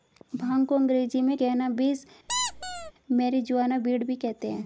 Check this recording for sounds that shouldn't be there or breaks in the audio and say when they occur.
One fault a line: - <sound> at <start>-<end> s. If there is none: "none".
- squeak at 2.3-2.9 s